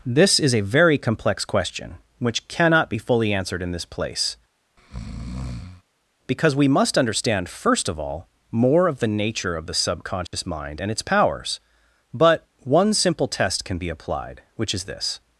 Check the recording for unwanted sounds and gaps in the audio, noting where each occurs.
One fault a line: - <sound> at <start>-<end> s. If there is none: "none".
- breath at 4.8-5.8 s
- dropout at 10.3-10.3 s